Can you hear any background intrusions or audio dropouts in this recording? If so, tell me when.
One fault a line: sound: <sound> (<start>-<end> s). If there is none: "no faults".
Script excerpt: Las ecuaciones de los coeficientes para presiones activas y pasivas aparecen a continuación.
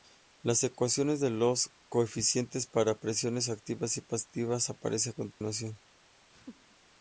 sound: dropout (5.3-5.4 s)
sound: laugh (6.3-6.8 s)